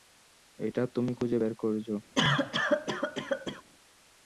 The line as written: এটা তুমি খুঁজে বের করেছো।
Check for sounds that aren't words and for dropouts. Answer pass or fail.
fail